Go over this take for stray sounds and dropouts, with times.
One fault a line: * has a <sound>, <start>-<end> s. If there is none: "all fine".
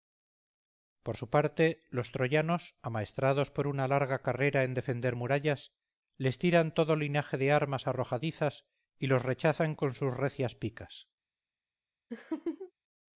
* has a laugh, 12.1-12.7 s